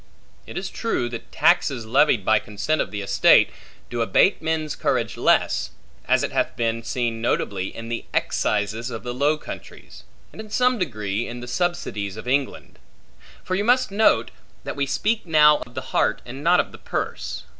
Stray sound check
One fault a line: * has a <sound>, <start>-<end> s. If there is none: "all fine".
* has a dropout, 15.6-15.7 s